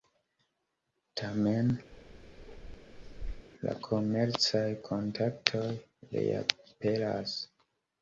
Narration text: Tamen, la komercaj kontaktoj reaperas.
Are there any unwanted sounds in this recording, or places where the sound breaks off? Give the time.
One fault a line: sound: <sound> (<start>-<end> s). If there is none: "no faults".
sound: bark (1.9-3.5 s)